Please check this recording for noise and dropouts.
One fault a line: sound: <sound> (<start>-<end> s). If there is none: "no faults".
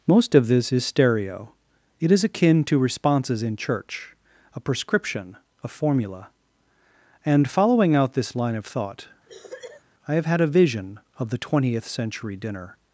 sound: cough (9.3-9.8 s)